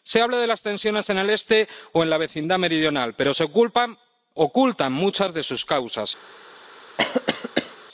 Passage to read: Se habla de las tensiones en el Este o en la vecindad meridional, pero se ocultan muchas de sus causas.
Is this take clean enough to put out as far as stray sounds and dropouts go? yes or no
no